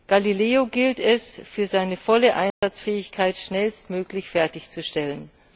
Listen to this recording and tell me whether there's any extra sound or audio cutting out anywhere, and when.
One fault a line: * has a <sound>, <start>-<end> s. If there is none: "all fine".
* has a dropout, 2.5-2.6 s